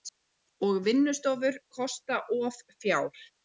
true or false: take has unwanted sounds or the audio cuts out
false